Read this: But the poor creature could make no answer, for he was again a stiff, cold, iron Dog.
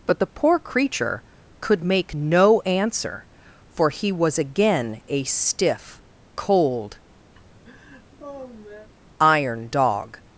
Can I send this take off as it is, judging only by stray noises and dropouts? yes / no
no